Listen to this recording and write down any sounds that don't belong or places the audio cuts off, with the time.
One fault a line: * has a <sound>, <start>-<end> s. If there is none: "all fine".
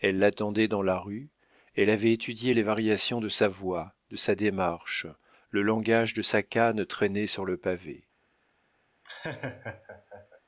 * has a laugh, 9.0-10.4 s